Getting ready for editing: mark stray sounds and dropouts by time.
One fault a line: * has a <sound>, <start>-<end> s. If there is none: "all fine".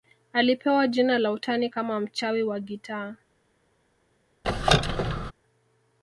* has a squeak, 4.4-5.3 s